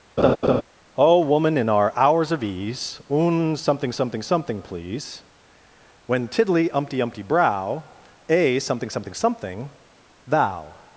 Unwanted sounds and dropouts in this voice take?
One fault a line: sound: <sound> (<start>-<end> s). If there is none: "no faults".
sound: laugh (0.2-0.6 s)